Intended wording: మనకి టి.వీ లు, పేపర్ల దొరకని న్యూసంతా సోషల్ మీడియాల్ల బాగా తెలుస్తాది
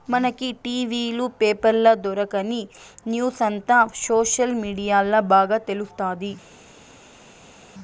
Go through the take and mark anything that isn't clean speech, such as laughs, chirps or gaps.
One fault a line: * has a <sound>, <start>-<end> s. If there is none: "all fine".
all fine